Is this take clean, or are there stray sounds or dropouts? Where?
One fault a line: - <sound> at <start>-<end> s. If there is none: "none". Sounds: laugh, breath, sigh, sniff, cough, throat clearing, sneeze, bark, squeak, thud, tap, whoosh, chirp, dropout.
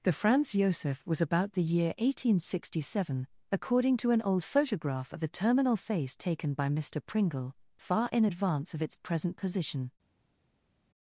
none